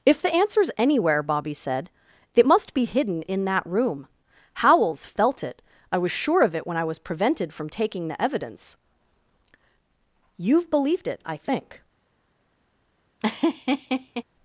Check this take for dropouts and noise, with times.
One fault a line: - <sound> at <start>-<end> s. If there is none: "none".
- laugh at 13.2-14.2 s